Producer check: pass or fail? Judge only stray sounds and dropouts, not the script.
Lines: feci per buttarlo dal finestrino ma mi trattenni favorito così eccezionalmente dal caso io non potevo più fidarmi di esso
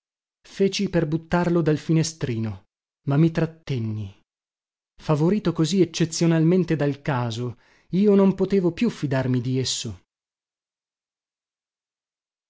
pass